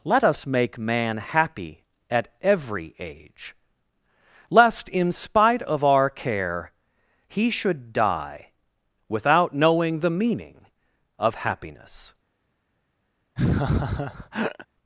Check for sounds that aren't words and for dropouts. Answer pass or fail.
fail